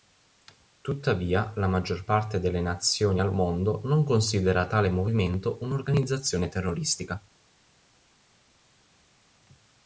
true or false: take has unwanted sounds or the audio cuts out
false